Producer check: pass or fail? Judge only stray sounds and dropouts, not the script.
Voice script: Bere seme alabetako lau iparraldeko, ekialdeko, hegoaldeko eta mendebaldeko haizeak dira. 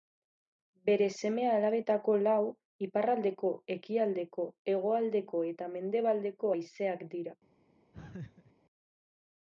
fail